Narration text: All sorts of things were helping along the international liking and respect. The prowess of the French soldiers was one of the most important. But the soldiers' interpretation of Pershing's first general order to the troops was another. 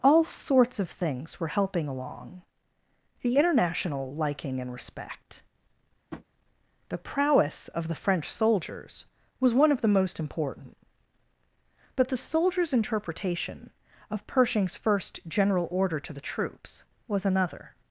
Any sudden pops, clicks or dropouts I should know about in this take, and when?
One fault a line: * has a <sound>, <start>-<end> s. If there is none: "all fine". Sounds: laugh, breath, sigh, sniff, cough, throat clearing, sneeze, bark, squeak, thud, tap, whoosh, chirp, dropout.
* has a tap, 6.1-6.3 s